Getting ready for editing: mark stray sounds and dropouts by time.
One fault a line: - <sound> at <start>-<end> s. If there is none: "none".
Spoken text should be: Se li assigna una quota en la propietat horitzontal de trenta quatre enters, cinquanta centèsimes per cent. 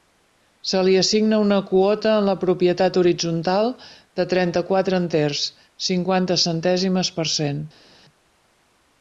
none